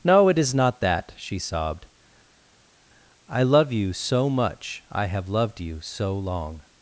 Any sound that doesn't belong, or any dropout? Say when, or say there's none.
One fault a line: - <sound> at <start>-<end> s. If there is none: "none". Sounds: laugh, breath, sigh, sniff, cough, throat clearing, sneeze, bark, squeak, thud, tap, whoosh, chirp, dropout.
none